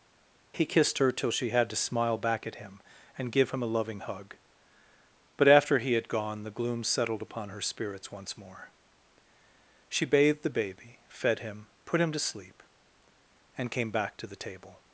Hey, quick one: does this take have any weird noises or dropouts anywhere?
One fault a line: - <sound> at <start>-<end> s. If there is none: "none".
none